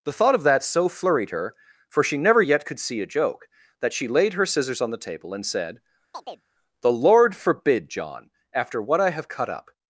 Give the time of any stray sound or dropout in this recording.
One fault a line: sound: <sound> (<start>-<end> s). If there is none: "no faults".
sound: chirp (6.1-6.5 s)